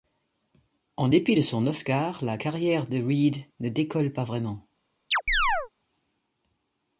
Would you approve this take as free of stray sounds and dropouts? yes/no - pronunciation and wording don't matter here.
no